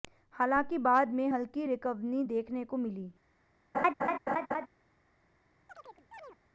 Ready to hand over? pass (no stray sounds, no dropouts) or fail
fail